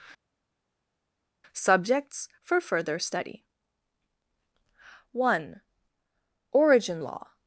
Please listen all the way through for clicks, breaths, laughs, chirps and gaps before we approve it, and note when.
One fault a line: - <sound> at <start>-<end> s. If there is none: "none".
none